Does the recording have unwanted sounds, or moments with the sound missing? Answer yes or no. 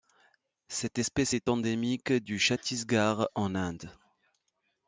no